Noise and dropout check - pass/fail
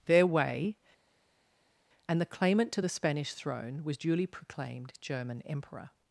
pass